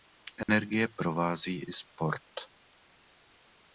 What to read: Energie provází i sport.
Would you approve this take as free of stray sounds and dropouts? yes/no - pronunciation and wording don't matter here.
no